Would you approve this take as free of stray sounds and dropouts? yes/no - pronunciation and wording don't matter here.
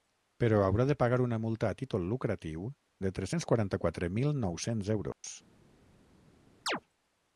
no